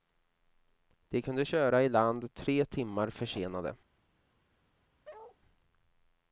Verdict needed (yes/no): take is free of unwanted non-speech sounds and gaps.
no